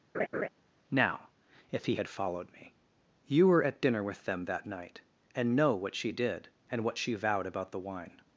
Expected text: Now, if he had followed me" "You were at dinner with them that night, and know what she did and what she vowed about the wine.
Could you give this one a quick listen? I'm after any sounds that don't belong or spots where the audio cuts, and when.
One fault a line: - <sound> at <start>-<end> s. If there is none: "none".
- laugh at 0.1-0.5 s